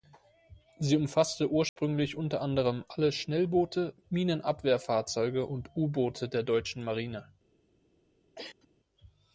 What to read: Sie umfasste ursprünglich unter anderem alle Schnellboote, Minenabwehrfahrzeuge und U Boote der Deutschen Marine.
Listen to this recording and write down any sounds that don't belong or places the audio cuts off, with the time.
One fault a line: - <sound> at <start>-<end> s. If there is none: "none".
- dropout at 1.7-1.8 s
- cough at 8.4-8.7 s